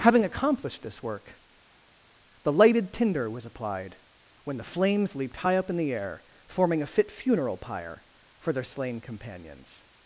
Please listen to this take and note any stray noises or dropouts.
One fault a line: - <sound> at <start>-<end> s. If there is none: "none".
none